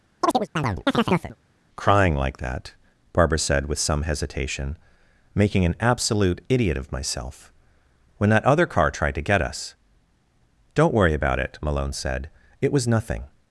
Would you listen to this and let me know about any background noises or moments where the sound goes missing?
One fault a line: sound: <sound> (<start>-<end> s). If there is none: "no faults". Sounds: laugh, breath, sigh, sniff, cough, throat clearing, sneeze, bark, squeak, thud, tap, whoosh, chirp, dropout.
sound: chirp (0.2-1.4 s)